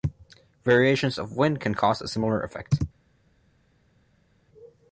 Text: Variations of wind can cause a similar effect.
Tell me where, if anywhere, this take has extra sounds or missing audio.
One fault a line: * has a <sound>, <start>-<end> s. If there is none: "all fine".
all fine